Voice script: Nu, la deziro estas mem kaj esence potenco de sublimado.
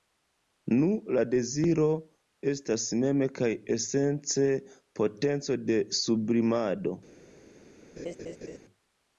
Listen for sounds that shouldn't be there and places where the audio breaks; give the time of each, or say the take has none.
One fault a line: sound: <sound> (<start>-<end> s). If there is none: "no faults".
sound: laugh (8.0-8.6 s)